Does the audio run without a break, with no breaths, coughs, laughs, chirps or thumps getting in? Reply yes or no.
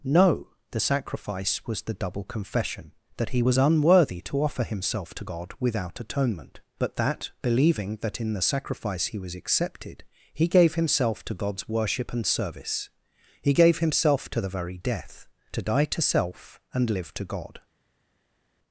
yes